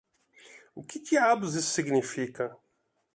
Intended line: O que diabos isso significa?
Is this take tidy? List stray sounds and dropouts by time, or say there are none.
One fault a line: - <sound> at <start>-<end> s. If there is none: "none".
none